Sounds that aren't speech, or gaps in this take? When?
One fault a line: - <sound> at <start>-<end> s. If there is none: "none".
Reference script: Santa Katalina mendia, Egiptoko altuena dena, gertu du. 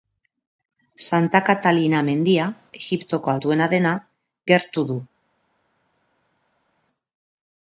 none